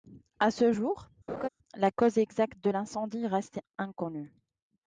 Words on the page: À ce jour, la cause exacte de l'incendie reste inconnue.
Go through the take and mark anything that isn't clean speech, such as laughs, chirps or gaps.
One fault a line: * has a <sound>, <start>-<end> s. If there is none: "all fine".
* has a laugh, 1.3-1.5 s